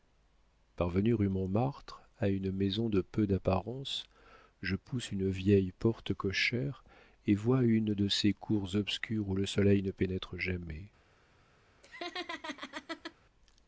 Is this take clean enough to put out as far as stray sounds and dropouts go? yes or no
no